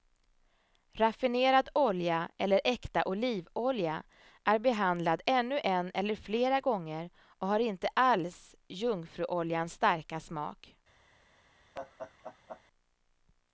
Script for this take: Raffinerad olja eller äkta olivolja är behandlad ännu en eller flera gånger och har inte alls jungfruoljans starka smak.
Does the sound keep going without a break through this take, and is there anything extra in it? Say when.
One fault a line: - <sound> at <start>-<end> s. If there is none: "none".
- laugh at 11.7-12.6 s